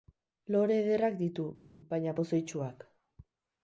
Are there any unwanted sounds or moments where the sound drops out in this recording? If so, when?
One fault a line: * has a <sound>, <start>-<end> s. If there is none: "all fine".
all fine